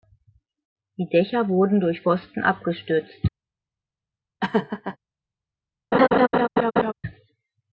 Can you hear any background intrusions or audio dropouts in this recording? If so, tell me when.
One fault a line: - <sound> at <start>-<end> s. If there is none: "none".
- laugh at 4.4-5.0 s
- laugh at 5.9-6.9 s